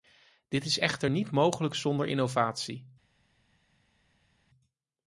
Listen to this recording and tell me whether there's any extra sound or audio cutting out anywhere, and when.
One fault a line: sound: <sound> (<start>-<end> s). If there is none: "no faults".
no faults